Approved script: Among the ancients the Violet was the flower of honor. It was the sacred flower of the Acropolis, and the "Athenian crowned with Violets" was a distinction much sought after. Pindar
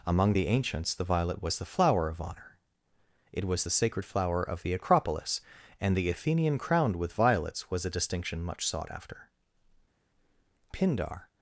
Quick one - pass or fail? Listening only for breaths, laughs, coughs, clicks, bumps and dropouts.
pass